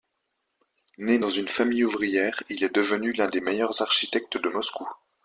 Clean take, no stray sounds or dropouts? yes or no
yes